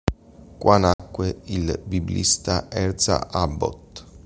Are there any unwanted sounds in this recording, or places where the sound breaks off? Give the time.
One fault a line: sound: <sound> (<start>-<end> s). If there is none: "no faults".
sound: dropout (0.9-1.0 s)